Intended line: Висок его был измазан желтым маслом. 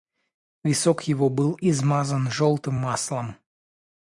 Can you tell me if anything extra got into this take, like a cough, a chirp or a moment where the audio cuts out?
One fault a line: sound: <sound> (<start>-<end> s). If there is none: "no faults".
no faults